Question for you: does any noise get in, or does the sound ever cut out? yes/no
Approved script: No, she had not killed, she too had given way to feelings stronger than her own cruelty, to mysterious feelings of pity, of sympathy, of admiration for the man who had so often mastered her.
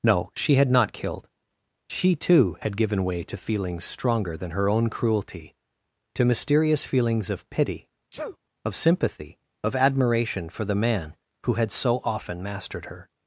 yes